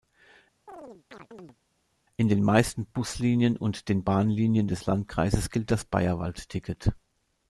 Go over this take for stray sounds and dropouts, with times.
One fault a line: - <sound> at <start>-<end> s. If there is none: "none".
- chirp at 0.7-1.6 s